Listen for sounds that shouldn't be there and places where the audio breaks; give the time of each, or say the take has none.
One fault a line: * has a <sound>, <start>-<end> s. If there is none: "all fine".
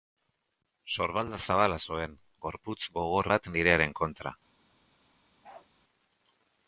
* has a bark, 5.4-5.7 s